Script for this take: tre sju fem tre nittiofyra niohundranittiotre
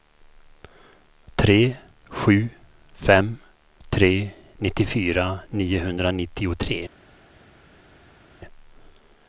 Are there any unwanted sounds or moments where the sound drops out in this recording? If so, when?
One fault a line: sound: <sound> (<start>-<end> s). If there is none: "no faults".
no faults